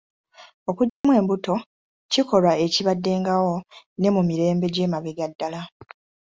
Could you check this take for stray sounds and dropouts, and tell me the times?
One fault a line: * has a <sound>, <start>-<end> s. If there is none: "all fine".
* has a dropout, 0.9-1.0 s